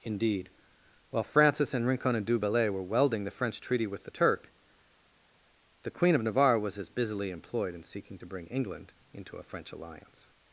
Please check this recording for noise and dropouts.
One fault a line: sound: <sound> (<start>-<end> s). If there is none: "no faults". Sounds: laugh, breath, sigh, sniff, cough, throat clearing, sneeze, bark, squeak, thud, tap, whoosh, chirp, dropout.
no faults